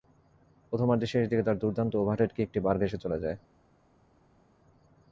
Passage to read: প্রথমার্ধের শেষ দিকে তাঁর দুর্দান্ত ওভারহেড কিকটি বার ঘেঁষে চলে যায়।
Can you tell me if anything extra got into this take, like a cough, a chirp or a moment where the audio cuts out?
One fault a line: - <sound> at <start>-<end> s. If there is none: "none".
none